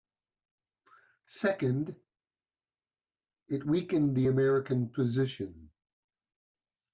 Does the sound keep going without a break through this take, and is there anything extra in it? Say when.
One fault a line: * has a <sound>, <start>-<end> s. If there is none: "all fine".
all fine